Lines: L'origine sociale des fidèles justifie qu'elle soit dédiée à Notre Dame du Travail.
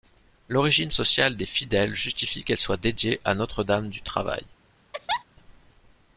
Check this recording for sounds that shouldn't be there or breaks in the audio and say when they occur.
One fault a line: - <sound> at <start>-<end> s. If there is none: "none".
- laugh at 4.9-5.2 s